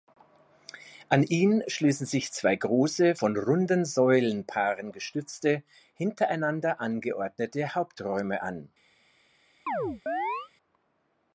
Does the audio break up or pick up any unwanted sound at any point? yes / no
yes